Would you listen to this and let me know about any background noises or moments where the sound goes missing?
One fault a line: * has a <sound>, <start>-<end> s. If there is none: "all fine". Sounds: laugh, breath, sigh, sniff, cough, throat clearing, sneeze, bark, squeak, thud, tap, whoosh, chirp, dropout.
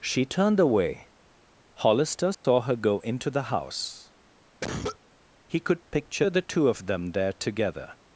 * has a dropout, 2.3-2.4 s
* has a cough, 4.6-5.0 s